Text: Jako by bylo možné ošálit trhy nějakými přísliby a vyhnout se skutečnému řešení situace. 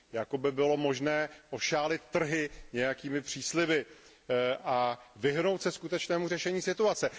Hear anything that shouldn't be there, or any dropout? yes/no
no